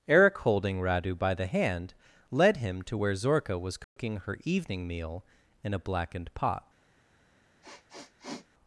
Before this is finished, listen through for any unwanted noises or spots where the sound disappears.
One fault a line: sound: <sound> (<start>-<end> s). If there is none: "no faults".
sound: dropout (3.8-4.0 s)
sound: sniff (7.6-8.5 s)